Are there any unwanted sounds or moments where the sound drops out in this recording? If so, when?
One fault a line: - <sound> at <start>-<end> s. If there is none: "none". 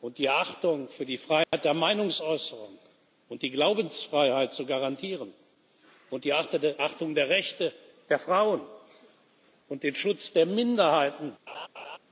- dropout at 1.4-1.5 s
- laugh at 11.5-12.0 s